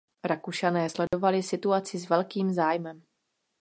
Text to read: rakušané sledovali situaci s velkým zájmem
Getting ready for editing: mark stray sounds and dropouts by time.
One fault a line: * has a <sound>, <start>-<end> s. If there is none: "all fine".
* has a dropout, 1.1-1.1 s